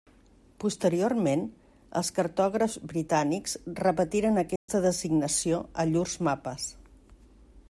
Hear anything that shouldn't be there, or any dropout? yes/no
yes